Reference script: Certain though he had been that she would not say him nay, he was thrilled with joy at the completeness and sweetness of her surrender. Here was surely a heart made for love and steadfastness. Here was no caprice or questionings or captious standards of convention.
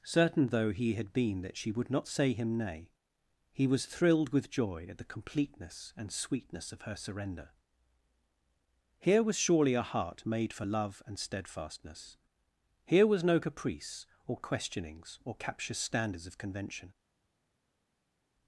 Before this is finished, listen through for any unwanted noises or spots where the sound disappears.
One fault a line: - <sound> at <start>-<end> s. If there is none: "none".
none